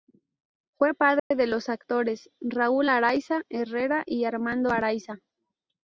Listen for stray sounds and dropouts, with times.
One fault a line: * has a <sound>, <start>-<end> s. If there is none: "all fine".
* has a dropout, 1.2-1.3 s